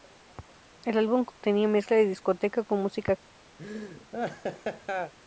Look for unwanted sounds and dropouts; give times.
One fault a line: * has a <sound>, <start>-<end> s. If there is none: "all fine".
* has a dropout, 1.3-1.4 s
* has a laugh, 3.6-5.1 s